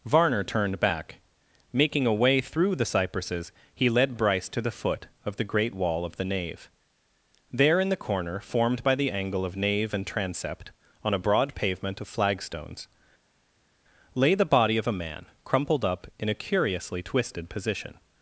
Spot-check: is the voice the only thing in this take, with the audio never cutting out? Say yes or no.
yes